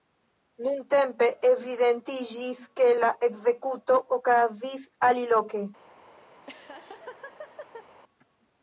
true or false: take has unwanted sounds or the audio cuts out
true